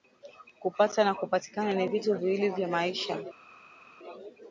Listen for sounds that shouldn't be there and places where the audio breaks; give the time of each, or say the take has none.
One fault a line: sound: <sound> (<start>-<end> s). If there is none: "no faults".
no faults